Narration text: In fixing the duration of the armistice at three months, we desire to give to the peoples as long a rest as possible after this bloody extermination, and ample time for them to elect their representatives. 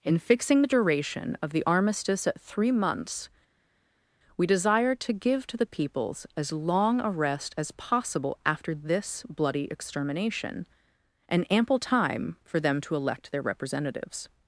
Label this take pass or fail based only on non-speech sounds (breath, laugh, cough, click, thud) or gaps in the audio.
pass